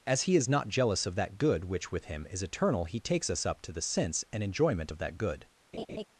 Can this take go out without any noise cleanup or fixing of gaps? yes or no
no